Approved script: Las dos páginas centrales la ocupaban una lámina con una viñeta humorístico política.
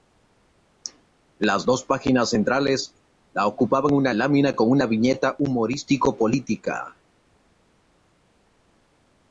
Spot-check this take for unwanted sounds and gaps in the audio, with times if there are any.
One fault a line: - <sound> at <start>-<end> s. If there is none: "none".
none